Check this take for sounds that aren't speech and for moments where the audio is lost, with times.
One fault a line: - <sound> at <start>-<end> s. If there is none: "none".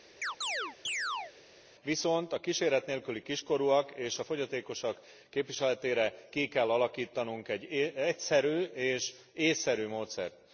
- chirp at 0.2-1.3 s